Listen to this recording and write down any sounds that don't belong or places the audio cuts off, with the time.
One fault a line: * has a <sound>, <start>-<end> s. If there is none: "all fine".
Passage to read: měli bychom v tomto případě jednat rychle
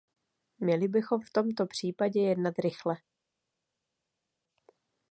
all fine